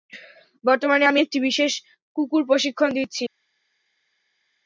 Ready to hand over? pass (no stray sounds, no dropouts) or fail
pass